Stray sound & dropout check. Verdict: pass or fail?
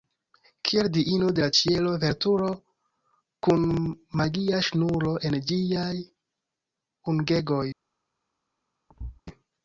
fail